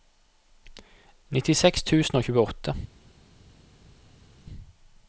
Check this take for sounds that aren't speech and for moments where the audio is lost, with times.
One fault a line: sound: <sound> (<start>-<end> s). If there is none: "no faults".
no faults